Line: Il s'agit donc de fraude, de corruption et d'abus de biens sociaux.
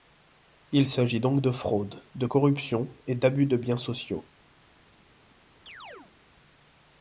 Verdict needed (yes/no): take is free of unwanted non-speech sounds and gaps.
no